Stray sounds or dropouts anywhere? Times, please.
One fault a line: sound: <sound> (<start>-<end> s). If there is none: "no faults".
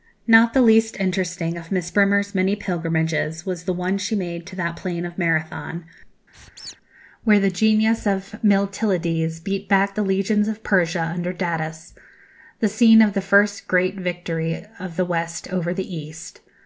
sound: squeak (6.3-6.8 s)